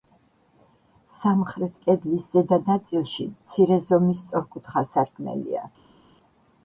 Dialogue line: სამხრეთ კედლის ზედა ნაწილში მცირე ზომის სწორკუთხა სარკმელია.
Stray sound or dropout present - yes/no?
no